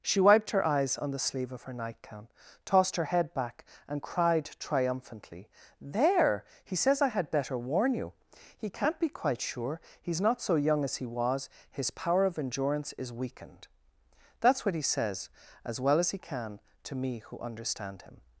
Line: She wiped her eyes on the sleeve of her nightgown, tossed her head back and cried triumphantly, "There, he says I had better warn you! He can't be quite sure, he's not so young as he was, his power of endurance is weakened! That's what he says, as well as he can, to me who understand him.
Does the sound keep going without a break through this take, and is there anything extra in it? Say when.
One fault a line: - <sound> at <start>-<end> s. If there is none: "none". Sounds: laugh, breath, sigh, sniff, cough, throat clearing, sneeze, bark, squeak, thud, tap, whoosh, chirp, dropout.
none